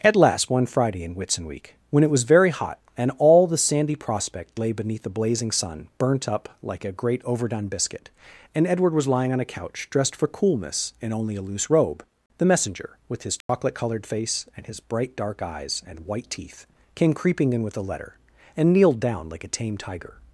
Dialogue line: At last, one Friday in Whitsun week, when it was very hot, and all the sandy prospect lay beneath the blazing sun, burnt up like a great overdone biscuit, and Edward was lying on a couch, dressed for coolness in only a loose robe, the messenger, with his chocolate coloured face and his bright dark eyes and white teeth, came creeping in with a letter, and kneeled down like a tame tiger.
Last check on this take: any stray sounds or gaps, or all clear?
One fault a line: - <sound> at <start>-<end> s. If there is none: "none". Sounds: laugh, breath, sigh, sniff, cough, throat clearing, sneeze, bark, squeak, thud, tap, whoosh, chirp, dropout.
- dropout at 13.4-13.5 s